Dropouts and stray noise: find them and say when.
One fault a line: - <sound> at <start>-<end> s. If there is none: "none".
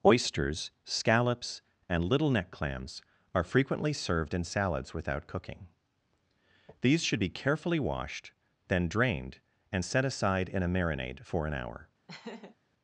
- laugh at 12.1-12.6 s